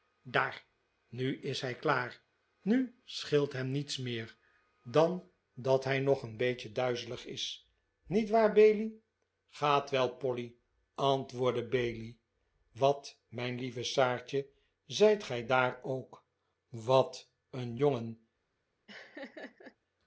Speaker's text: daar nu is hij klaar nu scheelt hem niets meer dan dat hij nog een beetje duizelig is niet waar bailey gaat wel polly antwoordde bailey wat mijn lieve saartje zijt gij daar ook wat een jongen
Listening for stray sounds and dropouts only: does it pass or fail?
fail